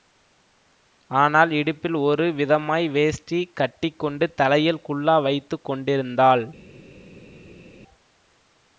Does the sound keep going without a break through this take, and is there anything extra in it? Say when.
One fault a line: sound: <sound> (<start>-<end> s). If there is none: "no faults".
no faults